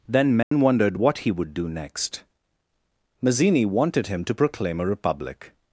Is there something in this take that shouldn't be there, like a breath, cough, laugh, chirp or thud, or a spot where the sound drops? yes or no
yes